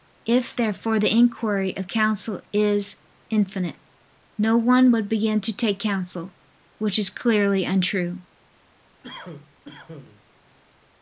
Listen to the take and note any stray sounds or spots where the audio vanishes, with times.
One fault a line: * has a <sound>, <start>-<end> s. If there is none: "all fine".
* has a cough, 9.0-10.2 s